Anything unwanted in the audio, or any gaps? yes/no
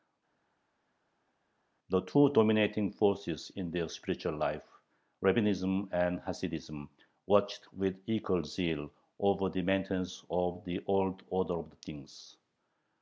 no